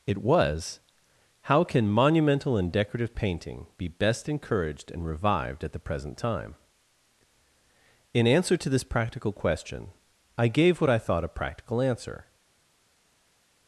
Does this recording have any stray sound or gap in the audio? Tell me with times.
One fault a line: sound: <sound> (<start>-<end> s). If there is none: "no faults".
no faults